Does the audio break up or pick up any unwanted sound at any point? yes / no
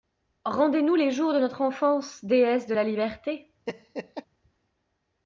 yes